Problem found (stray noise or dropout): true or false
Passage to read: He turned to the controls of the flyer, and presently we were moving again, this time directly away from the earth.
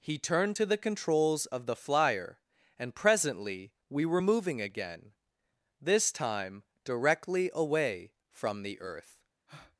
true